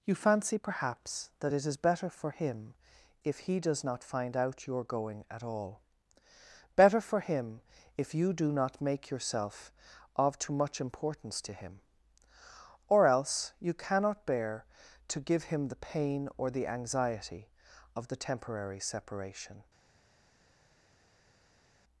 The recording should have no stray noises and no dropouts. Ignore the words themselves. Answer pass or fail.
pass